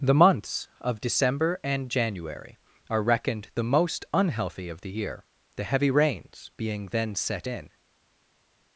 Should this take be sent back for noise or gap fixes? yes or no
no